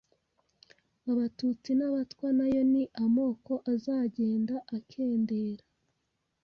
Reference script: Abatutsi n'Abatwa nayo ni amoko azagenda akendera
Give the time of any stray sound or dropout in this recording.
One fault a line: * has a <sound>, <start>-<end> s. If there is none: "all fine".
all fine